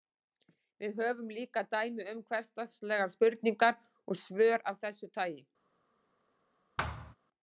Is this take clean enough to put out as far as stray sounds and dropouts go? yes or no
no